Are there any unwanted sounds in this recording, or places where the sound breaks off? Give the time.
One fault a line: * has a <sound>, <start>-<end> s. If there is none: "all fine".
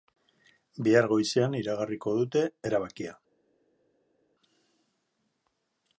all fine